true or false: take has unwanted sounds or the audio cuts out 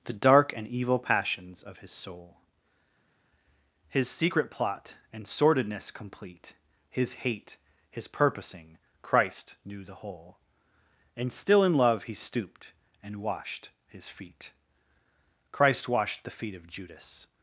false